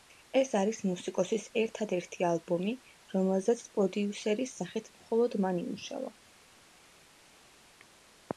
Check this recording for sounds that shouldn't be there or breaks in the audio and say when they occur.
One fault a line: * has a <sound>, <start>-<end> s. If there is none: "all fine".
all fine